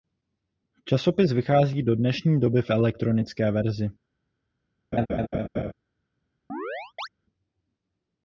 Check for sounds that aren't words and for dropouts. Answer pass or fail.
fail